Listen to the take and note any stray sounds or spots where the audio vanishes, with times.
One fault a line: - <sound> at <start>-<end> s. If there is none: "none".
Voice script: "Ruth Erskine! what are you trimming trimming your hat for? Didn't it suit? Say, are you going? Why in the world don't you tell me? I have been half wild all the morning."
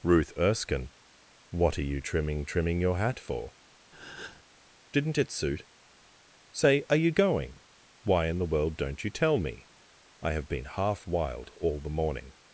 - breath at 3.9-4.4 s